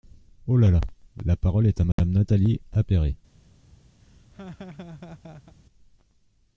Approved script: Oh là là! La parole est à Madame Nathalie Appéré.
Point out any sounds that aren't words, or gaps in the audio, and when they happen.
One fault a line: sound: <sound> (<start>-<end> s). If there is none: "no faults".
sound: dropout (1.9-2.0 s)
sound: laugh (4.0-5.5 s)